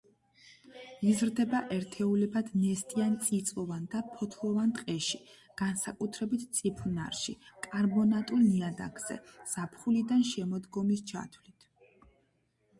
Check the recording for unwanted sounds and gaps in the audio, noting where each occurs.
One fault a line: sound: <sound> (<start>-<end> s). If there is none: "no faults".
no faults